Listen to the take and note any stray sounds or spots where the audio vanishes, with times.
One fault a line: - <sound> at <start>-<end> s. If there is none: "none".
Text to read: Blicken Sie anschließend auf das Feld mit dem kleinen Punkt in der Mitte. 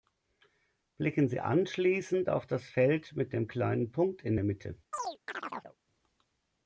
- chirp at 4.9-5.8 s